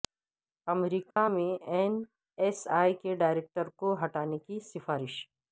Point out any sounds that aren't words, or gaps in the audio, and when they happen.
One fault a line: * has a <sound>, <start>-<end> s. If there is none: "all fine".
* has a dropout, 1.1-1.2 s